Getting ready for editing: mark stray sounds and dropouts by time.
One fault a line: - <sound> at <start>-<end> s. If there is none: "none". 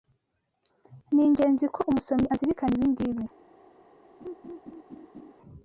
- laugh at 4.2-5.3 s